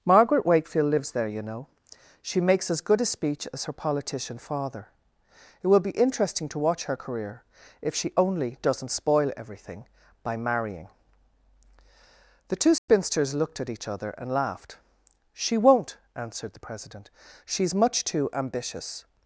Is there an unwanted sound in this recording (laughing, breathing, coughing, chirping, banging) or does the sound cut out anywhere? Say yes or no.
yes